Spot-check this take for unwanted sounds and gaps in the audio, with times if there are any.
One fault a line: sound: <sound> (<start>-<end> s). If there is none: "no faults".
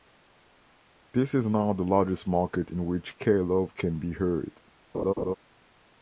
sound: laugh (4.9-5.3 s)